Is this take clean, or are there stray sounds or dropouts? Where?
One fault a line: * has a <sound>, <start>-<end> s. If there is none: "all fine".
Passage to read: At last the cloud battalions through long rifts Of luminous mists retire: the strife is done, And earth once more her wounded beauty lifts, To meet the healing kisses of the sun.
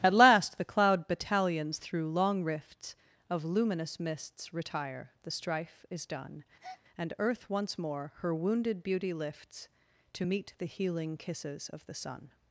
* has a breath, 6.6-6.8 s